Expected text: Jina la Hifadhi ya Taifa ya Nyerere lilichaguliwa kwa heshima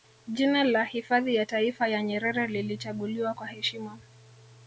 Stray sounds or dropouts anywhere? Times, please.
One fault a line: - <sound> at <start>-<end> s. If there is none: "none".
none